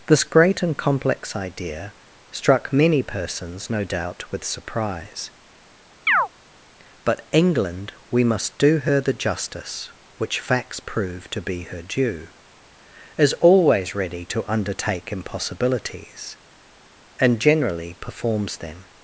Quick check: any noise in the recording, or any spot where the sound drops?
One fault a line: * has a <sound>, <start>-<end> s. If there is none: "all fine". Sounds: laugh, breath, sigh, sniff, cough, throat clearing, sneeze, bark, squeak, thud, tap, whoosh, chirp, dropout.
* has a chirp, 6.1-6.3 s